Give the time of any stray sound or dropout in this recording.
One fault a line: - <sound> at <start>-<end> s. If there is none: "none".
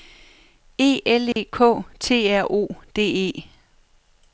- dropout at 1.3-1.4 s